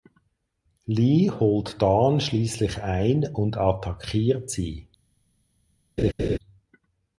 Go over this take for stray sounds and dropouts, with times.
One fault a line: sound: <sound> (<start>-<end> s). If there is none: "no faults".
sound: laugh (6.0-6.4 s)